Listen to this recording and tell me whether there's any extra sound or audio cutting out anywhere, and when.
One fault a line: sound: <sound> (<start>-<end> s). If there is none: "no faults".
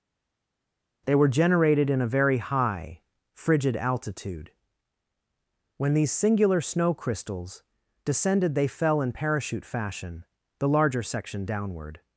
no faults